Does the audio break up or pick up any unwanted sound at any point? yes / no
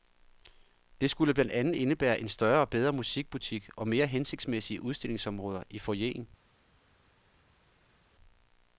no